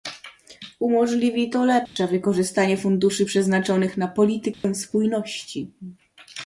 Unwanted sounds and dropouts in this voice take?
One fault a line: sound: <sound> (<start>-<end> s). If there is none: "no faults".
sound: dropout (1.9-2.0 s)
sound: dropout (4.5-4.6 s)